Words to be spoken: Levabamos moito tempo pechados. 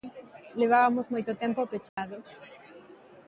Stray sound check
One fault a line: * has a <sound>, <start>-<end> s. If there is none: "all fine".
* has a dropout, 1.9-2.0 s